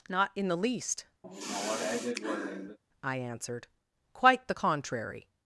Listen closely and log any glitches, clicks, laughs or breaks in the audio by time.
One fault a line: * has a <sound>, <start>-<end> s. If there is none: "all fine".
* has a sigh, 1.2-2.8 s